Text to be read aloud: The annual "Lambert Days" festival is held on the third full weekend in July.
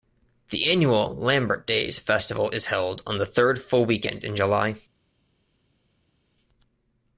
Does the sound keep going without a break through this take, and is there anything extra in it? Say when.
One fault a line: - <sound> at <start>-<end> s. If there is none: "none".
none